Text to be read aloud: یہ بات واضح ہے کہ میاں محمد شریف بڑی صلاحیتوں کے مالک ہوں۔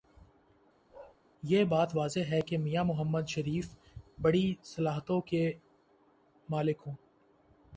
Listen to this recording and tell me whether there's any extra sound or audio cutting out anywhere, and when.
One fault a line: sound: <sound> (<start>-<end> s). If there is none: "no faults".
sound: bark (0.9-1.2 s)